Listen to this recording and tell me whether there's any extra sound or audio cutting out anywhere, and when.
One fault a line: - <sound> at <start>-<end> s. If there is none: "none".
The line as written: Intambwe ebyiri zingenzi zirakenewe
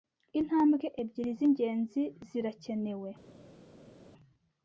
none